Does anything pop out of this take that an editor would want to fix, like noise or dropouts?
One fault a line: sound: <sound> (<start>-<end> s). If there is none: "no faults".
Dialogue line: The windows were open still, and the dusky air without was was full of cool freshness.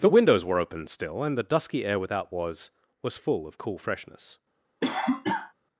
sound: cough (4.8-5.5 s)